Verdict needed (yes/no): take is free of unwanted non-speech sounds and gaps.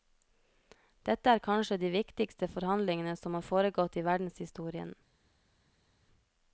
yes